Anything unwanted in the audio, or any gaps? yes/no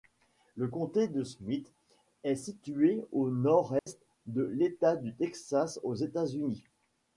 yes